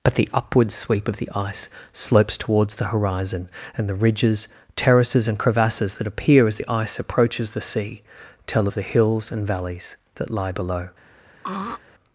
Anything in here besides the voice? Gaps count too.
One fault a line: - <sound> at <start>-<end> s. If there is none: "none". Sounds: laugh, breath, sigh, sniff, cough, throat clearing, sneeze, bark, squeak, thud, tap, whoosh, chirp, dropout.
- throat clearing at 11.4-11.8 s